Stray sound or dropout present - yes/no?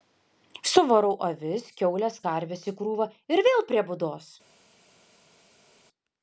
no